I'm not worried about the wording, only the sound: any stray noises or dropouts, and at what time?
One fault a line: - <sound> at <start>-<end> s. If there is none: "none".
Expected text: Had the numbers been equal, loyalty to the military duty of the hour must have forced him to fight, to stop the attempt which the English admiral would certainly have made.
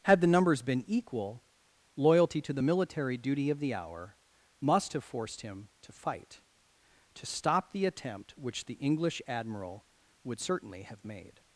none